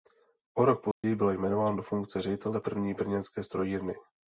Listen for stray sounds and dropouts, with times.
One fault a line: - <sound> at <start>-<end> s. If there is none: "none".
- dropout at 0.9-1.0 s